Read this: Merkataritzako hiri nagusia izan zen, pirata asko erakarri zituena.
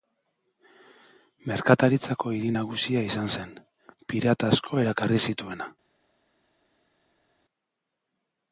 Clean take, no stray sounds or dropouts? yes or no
yes